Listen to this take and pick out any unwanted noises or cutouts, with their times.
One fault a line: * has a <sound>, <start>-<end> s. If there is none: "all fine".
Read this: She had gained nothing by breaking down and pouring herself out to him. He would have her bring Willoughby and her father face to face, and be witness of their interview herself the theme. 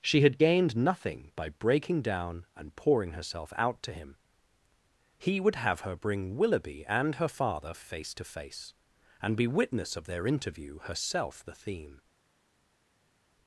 all fine